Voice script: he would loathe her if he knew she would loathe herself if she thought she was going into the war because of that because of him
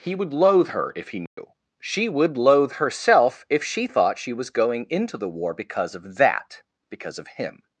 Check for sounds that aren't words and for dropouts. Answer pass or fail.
fail